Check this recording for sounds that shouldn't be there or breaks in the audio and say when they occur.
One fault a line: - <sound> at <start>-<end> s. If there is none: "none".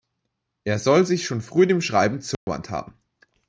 - dropout at 2.3-2.5 s